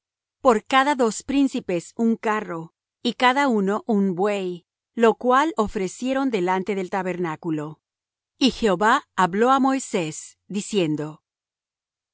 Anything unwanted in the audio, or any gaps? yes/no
no